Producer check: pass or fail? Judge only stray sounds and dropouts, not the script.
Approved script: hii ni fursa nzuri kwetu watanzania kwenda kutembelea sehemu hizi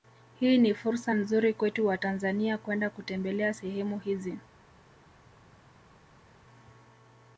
pass